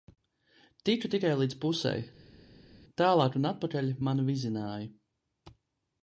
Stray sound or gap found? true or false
false